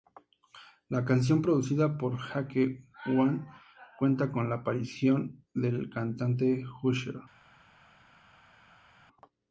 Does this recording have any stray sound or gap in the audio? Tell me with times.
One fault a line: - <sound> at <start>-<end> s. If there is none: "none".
none